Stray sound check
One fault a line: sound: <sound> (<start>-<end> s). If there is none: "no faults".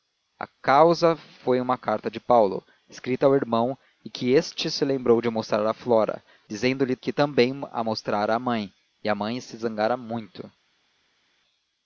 no faults